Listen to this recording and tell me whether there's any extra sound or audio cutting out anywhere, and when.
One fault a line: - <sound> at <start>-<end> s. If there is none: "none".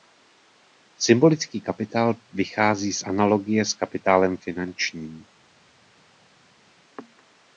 none